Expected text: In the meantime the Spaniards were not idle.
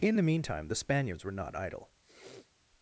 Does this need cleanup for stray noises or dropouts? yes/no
yes